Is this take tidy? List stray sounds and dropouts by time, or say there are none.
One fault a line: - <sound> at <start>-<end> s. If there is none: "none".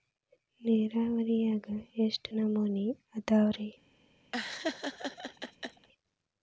- laugh at 4.3-5.9 s